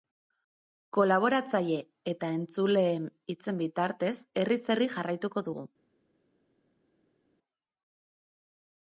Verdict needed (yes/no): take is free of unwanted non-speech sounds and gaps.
yes